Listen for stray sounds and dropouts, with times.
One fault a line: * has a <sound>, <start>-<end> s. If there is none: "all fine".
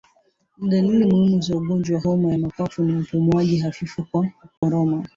* has a dropout, 4.6-4.6 s